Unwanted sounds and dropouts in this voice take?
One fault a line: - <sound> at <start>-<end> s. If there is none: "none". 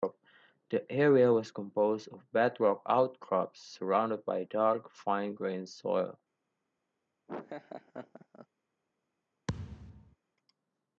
- laugh at 7.3-8.5 s
- thud at 9.5-10.2 s